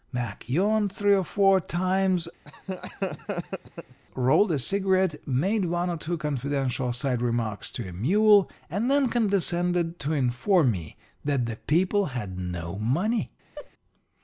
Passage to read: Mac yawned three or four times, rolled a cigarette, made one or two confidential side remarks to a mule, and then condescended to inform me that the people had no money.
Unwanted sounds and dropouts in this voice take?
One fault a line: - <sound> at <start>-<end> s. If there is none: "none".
- laugh at 2.4-4.0 s
- laugh at 13.6-13.7 s